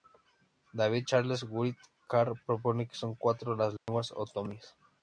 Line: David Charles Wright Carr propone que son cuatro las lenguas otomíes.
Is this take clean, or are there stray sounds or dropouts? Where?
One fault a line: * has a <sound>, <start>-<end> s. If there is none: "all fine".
* has a dropout, 3.8-3.9 s